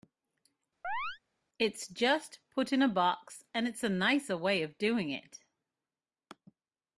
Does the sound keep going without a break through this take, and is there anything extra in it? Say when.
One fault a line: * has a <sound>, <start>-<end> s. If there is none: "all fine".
* has a chirp, 0.8-1.2 s